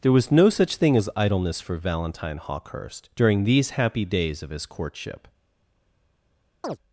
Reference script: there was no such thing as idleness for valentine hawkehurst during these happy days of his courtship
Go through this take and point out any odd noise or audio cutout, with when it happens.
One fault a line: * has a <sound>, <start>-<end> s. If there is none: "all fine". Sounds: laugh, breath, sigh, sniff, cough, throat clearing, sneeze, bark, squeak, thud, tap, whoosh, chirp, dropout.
* has a chirp, 6.6-6.8 s